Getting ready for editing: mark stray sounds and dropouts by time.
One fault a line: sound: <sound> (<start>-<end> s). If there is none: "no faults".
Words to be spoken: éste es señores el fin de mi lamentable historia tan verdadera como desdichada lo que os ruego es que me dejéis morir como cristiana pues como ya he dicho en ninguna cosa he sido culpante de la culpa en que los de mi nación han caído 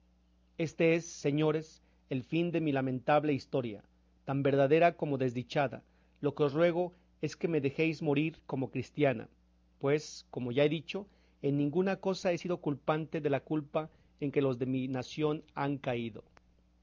no faults